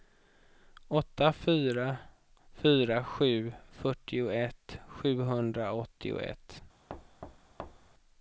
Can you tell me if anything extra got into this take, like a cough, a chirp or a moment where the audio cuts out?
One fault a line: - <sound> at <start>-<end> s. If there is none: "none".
- thud at 6.9-7.9 s